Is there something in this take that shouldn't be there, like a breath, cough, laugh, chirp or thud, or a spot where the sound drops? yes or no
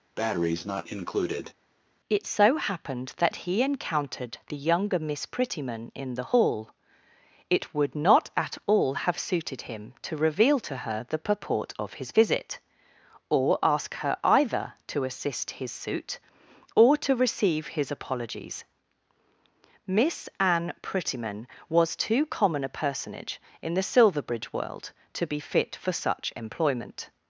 yes